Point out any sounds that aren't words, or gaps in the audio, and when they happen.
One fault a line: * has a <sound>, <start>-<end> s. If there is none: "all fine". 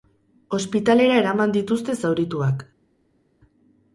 all fine